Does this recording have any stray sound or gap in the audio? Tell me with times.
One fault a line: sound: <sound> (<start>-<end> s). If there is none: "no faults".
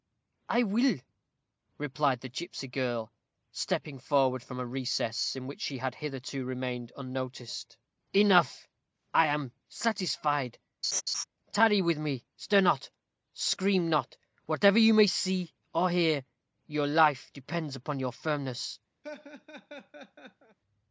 sound: laugh (10.8-11.2 s)
sound: laugh (19.0-20.6 s)